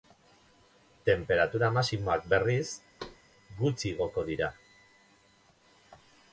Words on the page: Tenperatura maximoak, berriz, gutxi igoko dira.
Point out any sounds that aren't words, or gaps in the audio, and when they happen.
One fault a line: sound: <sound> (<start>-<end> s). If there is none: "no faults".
sound: thud (3.0-3.2 s)